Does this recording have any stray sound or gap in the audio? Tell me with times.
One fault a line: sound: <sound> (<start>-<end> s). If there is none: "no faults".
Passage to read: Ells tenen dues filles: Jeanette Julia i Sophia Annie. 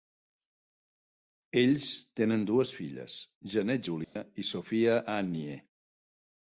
sound: dropout (4.0-4.2 s)